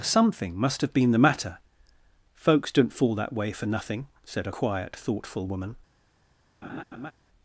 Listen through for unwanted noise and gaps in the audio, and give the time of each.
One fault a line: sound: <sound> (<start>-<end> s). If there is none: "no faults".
sound: laugh (6.6-7.1 s)